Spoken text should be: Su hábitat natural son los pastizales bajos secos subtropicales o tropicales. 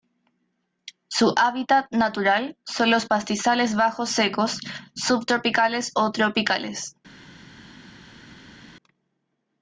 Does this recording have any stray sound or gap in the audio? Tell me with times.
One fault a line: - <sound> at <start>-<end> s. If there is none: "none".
none